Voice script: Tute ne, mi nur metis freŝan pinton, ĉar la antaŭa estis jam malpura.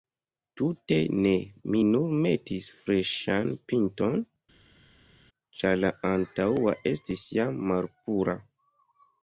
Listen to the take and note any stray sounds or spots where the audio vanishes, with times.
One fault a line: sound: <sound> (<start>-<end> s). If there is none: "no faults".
no faults